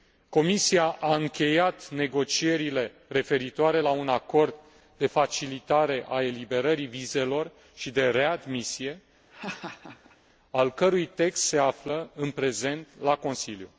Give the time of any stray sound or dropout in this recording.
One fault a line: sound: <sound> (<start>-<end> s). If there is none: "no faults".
sound: laugh (9.3-10.2 s)